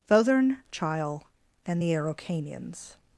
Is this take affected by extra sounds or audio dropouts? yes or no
no